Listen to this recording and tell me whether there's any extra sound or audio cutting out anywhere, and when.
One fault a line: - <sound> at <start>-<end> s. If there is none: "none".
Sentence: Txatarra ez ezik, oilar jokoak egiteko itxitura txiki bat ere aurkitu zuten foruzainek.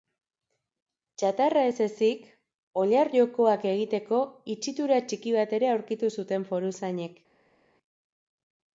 none